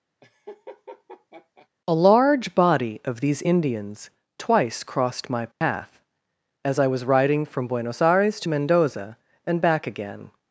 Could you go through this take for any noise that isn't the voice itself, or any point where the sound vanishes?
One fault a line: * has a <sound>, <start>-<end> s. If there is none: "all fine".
* has a laugh, 0.2-1.7 s
* has a dropout, 5.5-5.6 s